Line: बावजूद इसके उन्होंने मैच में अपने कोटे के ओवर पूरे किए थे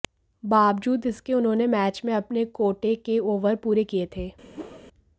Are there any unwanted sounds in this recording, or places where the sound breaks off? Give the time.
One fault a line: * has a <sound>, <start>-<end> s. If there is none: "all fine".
* has a whoosh, 4.5-4.8 s